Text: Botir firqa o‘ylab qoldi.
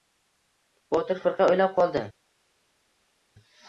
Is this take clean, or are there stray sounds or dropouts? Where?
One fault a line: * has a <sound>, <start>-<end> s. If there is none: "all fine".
all fine